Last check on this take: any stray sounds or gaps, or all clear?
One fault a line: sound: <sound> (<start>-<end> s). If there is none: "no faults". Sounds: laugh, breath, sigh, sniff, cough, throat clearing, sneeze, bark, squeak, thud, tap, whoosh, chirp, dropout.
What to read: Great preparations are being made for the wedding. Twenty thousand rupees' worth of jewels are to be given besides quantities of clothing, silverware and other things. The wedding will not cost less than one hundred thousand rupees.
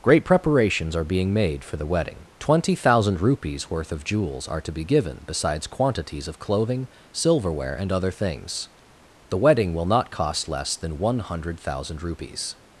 no faults